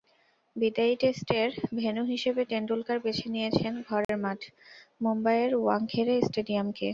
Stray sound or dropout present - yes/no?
yes